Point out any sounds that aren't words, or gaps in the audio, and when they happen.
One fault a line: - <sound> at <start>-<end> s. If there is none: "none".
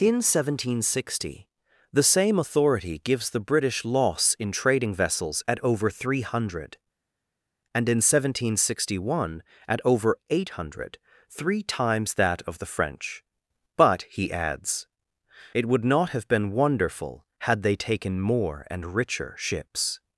none